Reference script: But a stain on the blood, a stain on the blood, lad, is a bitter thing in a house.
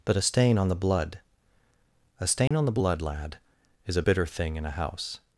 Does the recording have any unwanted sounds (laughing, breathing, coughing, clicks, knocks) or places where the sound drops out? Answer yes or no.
yes